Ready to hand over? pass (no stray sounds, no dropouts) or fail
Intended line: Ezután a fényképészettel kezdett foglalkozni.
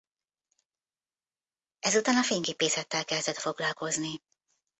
pass